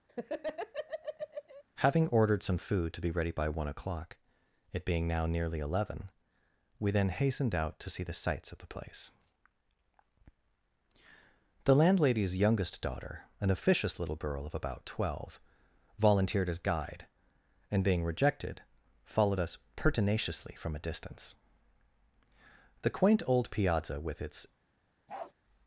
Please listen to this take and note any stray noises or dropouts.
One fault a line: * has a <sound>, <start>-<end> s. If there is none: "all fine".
* has a laugh, 0.1-1.6 s
* has a bark, 25.1-25.3 s